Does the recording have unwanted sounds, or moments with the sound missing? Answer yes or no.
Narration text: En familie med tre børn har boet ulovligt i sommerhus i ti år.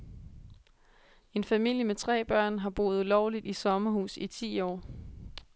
no